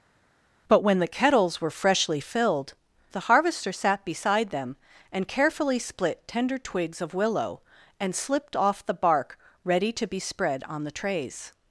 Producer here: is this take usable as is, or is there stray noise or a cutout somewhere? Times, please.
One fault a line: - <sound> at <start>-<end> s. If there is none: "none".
none